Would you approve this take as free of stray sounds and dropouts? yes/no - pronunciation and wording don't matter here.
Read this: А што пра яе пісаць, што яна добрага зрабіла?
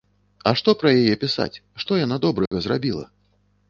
no